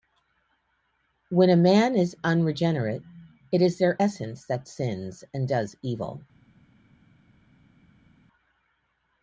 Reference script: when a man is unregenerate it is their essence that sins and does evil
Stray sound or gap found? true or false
false